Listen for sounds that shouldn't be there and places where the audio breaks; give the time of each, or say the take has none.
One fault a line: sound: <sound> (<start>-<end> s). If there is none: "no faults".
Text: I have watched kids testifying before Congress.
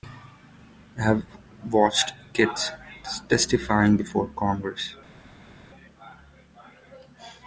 no faults